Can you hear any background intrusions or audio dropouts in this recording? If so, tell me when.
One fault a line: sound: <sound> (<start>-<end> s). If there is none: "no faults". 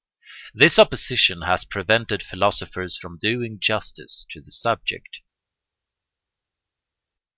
no faults